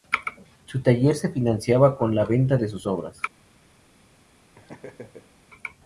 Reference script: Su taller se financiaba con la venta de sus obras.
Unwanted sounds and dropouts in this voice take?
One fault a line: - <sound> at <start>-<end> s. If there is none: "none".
- laugh at 4.5-5.4 s